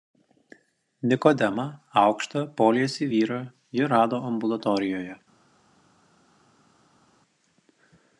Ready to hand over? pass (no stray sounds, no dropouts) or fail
pass